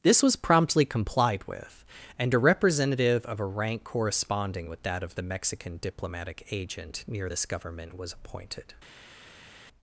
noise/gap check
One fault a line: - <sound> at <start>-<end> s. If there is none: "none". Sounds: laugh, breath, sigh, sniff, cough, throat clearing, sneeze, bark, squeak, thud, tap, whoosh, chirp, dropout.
none